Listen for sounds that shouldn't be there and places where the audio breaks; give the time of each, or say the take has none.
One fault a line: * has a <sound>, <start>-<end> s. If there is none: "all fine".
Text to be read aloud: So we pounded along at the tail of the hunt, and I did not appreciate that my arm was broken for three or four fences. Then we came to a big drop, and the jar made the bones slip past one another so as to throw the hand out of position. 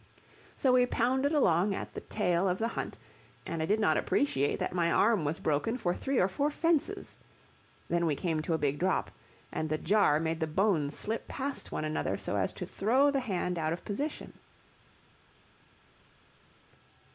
all fine